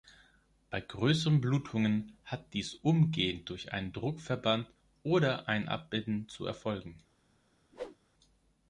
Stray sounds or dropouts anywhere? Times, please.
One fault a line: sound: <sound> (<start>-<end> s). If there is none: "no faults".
sound: whoosh (7.7-8.0 s)